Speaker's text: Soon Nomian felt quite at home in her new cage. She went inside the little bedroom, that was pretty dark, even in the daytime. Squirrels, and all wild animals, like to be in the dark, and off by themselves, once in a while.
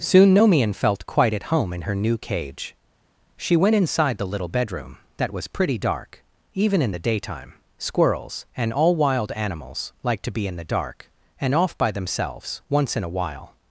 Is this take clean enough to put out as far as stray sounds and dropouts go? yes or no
yes